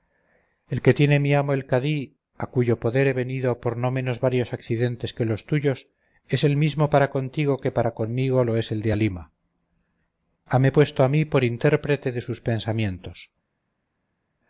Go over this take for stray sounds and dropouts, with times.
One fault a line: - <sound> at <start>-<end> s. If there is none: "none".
none